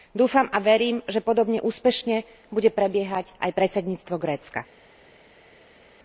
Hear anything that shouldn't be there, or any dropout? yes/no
no